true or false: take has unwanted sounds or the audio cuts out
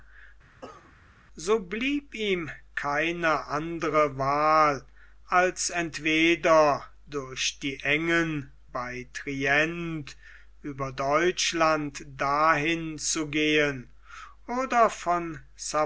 true